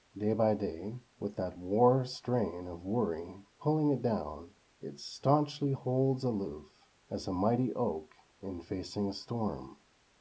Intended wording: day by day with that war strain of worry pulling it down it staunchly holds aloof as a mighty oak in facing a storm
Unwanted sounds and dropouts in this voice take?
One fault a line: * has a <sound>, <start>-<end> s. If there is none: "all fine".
all fine